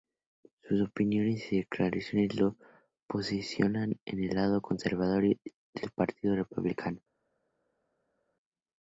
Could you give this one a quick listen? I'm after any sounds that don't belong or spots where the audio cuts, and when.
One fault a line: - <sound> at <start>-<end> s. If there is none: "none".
none